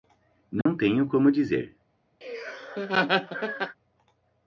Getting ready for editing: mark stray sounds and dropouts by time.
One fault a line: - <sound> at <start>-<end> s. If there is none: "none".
- dropout at 0.6-0.7 s
- laugh at 2.2-3.8 s